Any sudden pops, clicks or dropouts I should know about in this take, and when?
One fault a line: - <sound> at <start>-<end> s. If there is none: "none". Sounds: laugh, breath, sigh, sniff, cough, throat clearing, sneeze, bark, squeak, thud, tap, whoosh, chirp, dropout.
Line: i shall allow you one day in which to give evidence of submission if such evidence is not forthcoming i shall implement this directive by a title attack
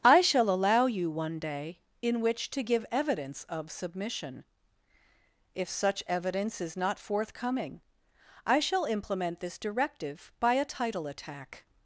none